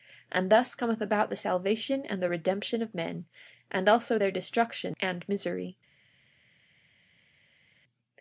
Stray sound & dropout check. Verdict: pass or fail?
pass